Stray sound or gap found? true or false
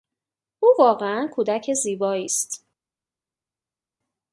false